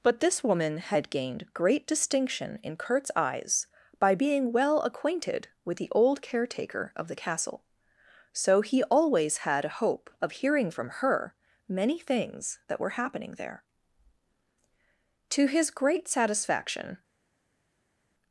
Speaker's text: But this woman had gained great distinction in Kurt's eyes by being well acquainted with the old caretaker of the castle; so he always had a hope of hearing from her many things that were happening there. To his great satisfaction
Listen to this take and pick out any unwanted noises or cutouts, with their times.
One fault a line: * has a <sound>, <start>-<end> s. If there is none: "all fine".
all fine